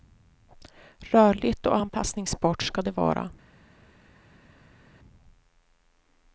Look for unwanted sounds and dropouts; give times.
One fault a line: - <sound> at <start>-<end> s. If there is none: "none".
none